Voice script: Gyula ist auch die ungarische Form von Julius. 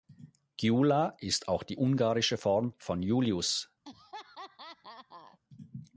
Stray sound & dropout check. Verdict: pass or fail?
fail